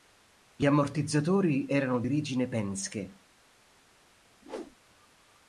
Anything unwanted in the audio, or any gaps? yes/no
yes